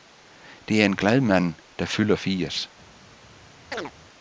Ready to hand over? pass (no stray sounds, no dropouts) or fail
fail